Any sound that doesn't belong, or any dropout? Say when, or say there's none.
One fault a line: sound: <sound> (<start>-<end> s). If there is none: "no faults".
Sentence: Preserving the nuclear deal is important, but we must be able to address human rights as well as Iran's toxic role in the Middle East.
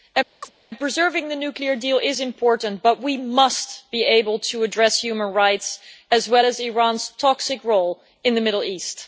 sound: chirp (0.4-0.5 s)